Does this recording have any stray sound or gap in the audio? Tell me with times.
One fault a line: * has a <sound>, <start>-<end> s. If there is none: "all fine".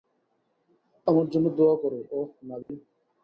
* has a dropout, 2.6-2.7 s